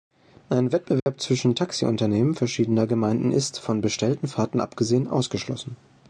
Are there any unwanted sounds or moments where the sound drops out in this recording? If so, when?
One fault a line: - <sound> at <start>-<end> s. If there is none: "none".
- dropout at 1.0-1.1 s